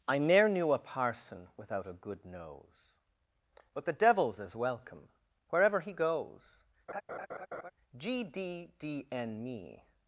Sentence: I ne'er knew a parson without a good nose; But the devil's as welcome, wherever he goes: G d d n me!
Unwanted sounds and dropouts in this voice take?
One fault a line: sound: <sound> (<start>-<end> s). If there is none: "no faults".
sound: laugh (6.9-7.7 s)